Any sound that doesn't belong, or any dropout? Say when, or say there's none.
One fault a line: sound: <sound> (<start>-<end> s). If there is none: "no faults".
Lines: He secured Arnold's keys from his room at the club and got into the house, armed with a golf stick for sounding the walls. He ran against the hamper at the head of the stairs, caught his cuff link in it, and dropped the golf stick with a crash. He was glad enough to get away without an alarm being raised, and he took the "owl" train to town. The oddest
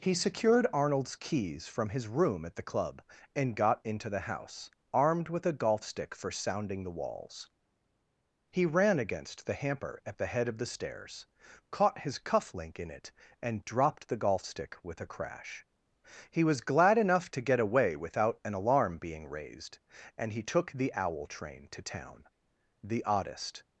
no faults